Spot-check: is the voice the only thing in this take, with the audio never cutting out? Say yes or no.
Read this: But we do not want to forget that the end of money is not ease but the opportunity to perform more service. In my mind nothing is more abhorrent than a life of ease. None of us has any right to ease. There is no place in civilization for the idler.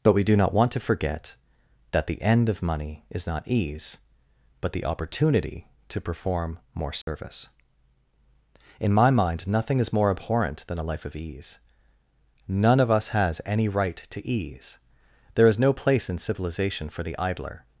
no